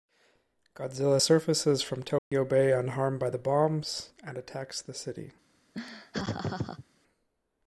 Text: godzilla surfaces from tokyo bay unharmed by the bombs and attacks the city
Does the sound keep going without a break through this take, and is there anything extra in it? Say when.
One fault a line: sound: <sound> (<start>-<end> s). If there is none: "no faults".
sound: dropout (2.2-2.3 s)
sound: laugh (5.7-6.8 s)